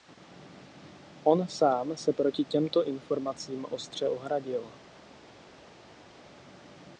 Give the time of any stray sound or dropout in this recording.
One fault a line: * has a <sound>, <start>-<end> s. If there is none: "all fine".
all fine